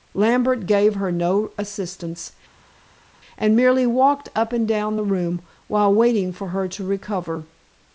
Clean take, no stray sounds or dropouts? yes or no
yes